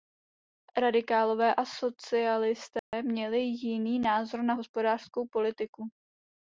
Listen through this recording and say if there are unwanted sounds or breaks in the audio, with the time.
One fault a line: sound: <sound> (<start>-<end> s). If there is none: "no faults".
sound: dropout (2.8-2.9 s)